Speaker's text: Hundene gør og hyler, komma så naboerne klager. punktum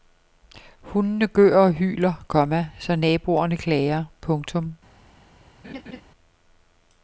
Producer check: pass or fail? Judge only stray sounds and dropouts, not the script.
fail